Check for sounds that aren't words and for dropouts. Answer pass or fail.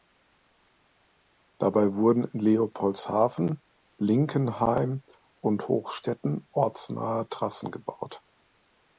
pass